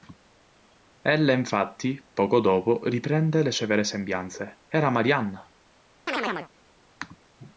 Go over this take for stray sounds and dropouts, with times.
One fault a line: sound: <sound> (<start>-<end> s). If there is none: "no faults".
sound: chirp (6.1-6.5 s)